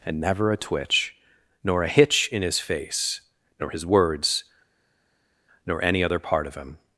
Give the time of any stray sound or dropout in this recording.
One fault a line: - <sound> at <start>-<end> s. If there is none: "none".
none